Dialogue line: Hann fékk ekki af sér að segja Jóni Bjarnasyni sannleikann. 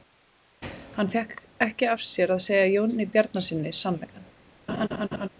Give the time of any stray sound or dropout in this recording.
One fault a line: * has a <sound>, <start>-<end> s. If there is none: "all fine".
* has a laugh, 4.7-5.3 s